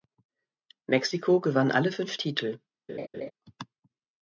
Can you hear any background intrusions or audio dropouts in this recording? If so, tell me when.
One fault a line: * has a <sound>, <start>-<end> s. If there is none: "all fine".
* has a laugh, 2.9-3.3 s